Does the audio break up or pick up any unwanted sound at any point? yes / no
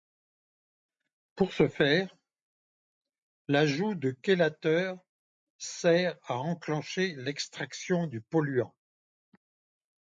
no